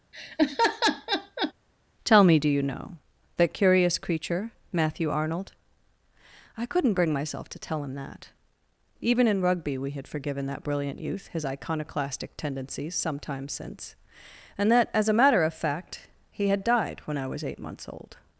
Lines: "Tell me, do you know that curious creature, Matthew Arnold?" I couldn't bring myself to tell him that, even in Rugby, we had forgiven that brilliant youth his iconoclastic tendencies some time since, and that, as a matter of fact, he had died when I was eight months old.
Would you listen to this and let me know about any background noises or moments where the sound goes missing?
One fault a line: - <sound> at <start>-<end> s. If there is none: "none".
- laugh at 0.1-1.5 s